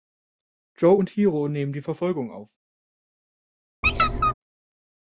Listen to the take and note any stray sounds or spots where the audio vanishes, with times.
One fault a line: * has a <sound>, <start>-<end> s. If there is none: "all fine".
* has a squeak, 3.8-4.3 s